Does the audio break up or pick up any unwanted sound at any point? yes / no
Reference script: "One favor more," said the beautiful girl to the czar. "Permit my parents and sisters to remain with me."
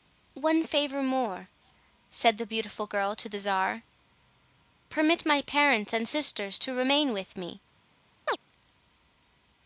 yes